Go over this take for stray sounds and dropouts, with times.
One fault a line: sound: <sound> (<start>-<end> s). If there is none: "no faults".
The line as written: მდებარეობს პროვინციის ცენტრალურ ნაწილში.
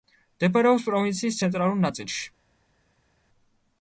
no faults